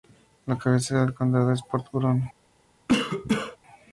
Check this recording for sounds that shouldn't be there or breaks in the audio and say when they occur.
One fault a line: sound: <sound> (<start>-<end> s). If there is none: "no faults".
sound: cough (2.9-3.6 s)